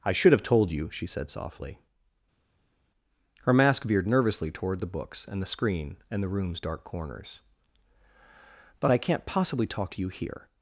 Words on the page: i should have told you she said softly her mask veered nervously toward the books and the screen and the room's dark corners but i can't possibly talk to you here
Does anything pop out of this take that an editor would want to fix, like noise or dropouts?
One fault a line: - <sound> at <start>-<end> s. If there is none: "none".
none